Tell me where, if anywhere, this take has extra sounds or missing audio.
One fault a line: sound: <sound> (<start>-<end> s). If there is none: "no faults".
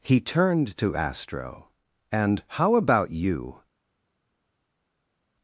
no faults